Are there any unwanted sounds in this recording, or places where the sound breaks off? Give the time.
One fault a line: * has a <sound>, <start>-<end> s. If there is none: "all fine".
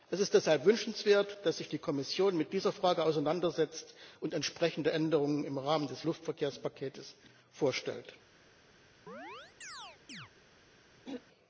* has a chirp, 9.1-10.3 s
* has a throat clearing, 11.0-11.2 s